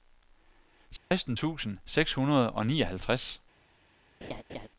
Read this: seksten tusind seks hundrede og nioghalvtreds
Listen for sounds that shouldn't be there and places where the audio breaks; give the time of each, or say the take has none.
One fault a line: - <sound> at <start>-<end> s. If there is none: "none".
- dropout at 1.0-1.1 s
- laugh at 4.2-4.7 s